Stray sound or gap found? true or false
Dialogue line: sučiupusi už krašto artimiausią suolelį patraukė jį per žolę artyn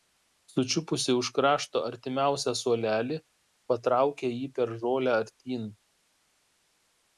false